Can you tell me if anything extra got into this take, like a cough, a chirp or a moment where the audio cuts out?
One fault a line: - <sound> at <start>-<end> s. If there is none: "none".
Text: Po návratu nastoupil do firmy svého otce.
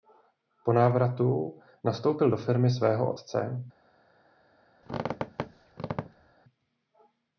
- squeak at 4.8-6.3 s